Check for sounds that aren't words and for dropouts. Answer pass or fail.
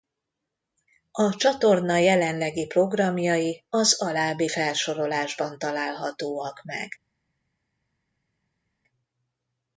pass